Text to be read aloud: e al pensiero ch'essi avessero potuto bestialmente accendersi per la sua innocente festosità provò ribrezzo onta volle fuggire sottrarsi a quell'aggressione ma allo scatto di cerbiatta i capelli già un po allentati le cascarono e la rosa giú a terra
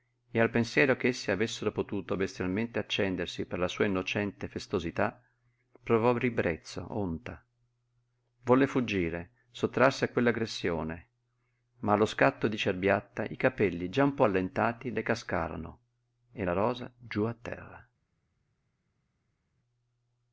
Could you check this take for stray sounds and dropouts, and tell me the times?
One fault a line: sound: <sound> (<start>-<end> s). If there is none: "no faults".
no faults